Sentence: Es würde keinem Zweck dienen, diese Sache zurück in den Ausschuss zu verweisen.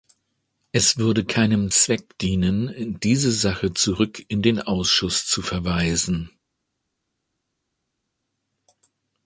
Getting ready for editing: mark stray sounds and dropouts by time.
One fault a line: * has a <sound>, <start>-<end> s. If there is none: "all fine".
all fine